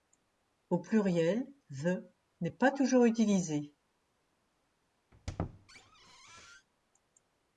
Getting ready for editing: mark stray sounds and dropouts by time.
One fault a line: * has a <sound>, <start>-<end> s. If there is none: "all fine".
* has a squeak, 5.1-6.7 s